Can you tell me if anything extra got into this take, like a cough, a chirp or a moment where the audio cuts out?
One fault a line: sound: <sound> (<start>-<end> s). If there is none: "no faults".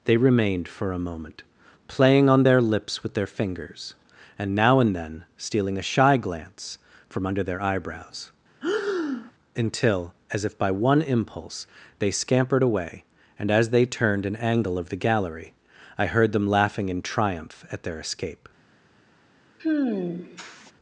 sound: breath (8.6-9.3 s)
sound: sigh (19.6-20.7 s)